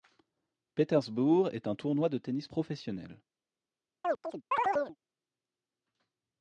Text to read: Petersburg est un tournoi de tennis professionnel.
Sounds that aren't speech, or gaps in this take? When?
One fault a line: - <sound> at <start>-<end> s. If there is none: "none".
- chirp at 4.0-5.0 s